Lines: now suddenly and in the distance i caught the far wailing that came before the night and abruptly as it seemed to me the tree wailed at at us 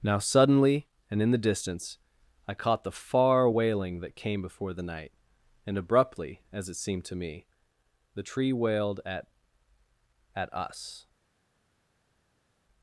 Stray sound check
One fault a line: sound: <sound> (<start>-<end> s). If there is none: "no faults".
no faults